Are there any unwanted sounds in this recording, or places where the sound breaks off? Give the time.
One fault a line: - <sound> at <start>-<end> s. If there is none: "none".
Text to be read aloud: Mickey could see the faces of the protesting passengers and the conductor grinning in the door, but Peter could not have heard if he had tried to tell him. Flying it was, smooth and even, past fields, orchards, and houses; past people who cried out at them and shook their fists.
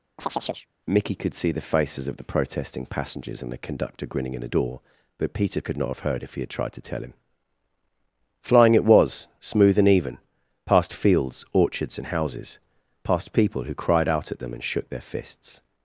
- chirp at 0.2-0.7 s